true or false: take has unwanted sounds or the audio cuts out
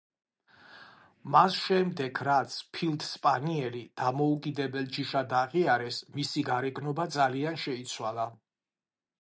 false